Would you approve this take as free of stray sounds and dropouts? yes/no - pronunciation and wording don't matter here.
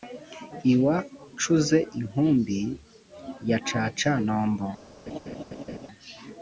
no